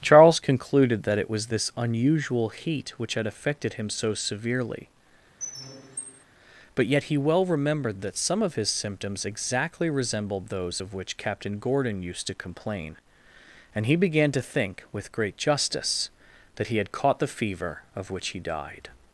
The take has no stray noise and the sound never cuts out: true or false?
false